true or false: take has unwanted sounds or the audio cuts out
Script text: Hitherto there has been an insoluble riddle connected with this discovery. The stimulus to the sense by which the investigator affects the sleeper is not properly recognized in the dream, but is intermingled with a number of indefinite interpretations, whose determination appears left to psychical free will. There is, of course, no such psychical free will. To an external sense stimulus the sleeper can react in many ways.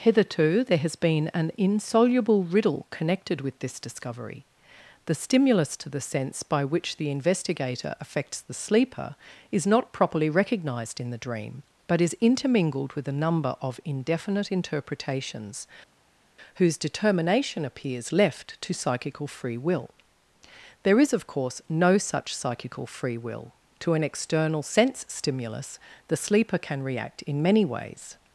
false